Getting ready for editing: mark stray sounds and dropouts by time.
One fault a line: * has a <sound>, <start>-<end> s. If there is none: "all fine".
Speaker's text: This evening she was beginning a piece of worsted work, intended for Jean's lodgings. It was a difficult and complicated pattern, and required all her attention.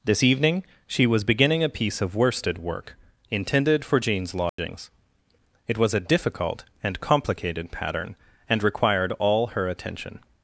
* has a dropout, 4.5-4.6 s